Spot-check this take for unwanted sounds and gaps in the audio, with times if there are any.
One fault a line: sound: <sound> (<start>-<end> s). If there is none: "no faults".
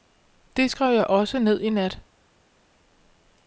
no faults